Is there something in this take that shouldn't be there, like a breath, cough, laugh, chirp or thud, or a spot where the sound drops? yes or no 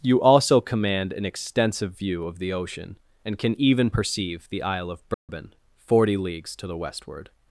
yes